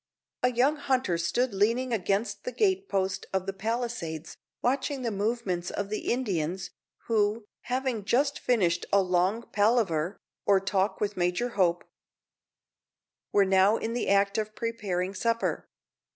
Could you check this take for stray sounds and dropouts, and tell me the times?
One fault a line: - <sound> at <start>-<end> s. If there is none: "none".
none